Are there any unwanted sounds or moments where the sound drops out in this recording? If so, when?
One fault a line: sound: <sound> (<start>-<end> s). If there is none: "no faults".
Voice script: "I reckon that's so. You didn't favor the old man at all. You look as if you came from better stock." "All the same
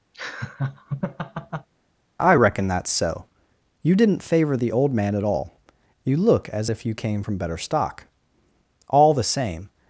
sound: laugh (0.1-1.7 s)